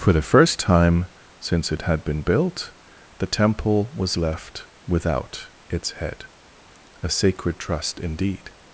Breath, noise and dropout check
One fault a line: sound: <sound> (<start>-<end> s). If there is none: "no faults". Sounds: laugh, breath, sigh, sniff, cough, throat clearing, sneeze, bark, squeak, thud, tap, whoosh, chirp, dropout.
no faults